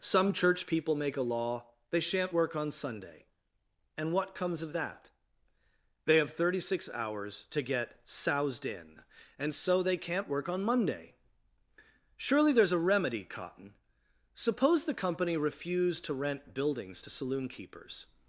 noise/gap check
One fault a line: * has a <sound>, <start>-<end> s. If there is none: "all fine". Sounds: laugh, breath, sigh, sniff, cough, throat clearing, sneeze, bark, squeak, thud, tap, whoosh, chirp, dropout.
all fine